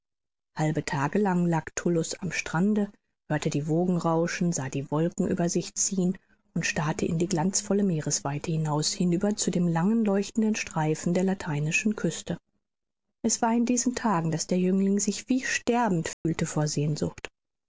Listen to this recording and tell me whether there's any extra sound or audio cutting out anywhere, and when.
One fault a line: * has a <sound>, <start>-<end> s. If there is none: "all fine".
* has a dropout, 16.1-16.3 s